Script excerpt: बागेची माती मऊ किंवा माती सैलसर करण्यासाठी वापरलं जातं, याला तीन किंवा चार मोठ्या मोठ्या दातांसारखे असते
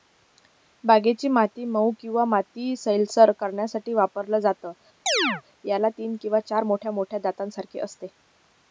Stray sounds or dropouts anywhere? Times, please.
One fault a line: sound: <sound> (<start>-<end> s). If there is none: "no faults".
sound: chirp (5.1-5.4 s)